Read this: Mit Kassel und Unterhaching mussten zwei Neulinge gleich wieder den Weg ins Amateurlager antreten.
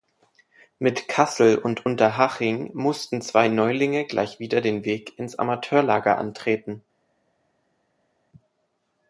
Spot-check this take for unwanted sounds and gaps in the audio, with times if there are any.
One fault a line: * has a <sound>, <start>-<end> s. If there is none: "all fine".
all fine